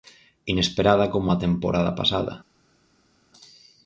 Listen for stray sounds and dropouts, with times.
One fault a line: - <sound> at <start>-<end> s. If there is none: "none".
none